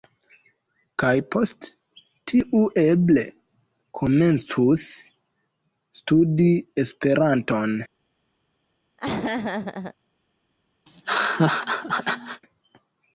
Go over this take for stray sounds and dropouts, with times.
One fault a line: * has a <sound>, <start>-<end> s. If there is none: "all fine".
* has a laugh, 9.0-9.9 s
* has a laugh, 10.9-12.4 s